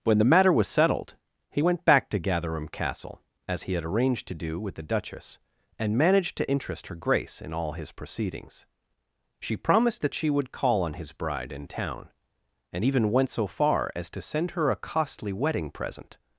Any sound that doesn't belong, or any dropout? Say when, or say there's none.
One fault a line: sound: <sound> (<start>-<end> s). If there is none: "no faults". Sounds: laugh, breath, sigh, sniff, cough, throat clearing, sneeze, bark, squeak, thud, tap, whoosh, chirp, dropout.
no faults